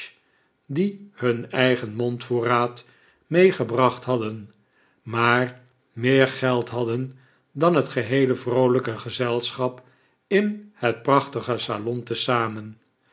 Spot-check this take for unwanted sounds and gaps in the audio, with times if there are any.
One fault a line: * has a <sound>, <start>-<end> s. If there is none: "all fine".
all fine